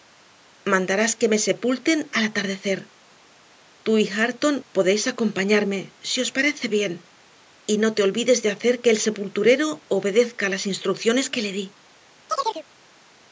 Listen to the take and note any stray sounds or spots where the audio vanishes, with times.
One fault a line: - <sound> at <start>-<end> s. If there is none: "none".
- chirp at 12.3-12.7 s